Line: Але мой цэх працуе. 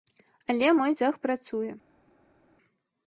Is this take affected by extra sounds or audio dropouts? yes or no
no